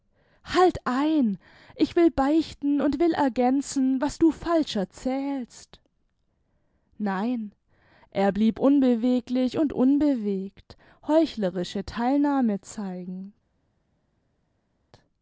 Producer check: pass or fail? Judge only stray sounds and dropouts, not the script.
pass